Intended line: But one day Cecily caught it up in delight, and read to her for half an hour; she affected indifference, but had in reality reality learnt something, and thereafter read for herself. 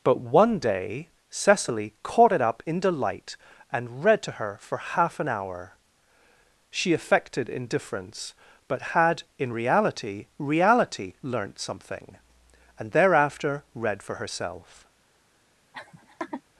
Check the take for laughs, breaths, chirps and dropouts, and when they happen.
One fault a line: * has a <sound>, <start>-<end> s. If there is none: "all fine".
* has a laugh, 15.7-16.4 s